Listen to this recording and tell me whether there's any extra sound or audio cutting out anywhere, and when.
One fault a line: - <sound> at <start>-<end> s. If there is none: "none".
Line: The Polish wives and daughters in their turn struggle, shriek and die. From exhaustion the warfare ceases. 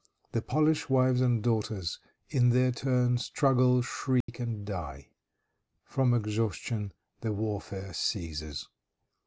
- dropout at 4.2-4.3 s